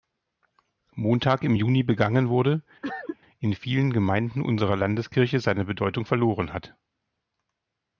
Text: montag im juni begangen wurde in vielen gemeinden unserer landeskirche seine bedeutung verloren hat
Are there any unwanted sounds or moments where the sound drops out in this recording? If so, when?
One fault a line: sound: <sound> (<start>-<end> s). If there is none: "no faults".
sound: cough (2.8-3.2 s)